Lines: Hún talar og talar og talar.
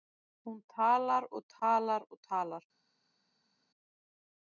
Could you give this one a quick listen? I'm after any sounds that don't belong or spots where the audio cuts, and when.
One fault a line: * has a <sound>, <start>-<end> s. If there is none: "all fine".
all fine